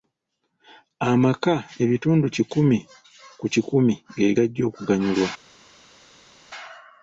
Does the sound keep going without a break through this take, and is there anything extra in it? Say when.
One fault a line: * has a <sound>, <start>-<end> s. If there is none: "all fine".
all fine